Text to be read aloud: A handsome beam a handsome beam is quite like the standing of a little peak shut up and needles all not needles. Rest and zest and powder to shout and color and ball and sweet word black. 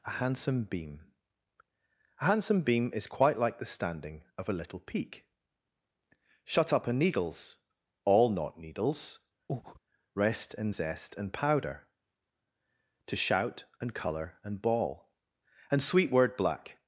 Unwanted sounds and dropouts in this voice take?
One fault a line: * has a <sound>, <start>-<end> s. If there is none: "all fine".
* has a breath, 9.5-9.8 s